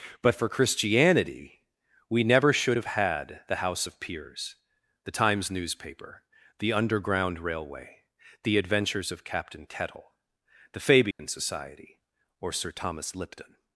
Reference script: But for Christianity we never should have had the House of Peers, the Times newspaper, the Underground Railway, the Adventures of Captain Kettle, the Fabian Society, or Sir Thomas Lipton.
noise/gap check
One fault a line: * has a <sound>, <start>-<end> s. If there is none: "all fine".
* has a dropout, 11.1-11.2 s